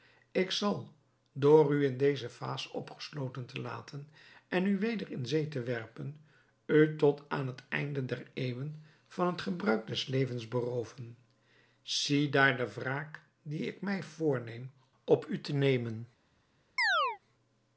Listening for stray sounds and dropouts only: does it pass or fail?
fail